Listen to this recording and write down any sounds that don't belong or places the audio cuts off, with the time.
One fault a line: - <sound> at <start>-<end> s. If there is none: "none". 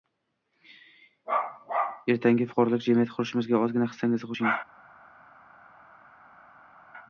none